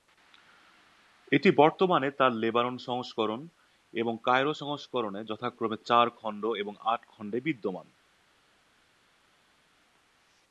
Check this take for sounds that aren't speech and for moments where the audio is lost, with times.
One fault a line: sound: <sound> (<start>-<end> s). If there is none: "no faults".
no faults